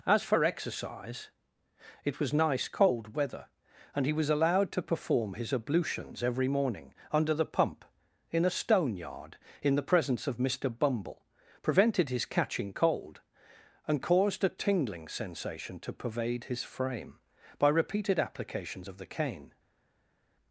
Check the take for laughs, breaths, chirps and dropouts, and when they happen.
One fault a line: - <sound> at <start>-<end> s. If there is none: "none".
none